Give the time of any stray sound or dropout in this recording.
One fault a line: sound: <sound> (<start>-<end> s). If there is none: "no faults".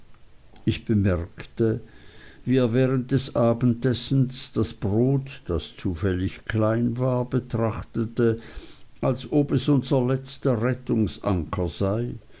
no faults